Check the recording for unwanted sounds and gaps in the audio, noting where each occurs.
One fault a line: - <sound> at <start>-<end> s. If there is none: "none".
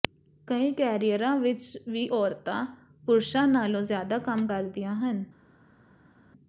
none